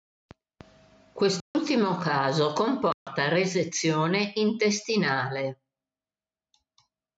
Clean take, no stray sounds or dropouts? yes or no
no